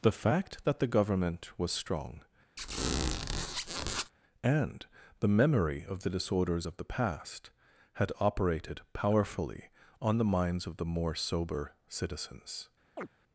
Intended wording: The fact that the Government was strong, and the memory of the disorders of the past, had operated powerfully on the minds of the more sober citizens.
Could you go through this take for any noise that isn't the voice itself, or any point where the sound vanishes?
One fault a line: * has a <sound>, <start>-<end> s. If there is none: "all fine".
* has a squeak, 2.6-4.1 s
* has a chirp, 13.0-13.1 s